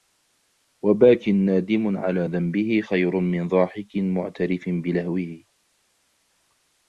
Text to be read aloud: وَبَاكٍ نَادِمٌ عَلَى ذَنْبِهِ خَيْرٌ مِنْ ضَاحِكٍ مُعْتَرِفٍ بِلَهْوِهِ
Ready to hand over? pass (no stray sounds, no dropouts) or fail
pass